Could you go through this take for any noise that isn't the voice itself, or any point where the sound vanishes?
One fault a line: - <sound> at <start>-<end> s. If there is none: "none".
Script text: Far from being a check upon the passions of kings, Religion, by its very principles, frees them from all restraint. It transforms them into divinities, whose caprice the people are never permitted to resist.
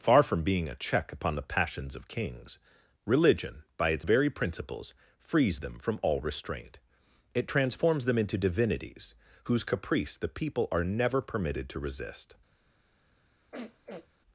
- sniff at 13.5-14.1 s